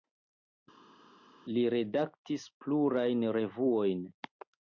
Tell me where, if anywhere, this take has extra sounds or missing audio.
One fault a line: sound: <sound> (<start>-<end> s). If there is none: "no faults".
no faults